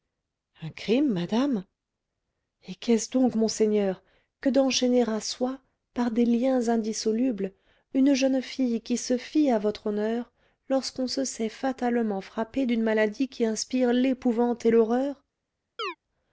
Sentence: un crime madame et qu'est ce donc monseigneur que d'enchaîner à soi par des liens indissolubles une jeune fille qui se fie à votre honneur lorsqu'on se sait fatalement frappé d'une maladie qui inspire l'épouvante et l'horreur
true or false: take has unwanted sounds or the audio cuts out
true